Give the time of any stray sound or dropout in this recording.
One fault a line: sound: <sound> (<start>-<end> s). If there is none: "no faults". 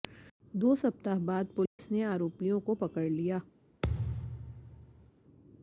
sound: dropout (1.7-1.8 s)
sound: thud (3.8-5.1 s)